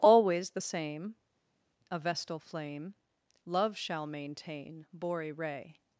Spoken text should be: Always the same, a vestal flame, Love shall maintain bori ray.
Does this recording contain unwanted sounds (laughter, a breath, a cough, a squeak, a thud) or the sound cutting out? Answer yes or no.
no